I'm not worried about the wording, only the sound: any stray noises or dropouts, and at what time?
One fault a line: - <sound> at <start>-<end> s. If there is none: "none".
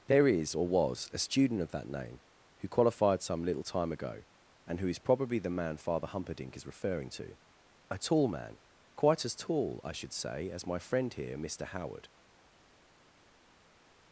none